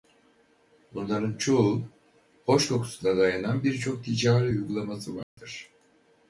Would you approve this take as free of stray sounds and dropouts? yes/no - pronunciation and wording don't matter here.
no